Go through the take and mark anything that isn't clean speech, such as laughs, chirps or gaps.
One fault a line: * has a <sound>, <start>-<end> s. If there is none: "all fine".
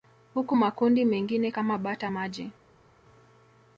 all fine